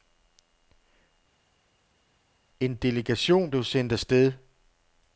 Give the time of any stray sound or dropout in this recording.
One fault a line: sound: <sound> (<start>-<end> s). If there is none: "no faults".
no faults